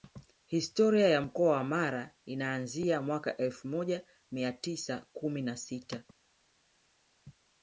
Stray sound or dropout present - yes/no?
no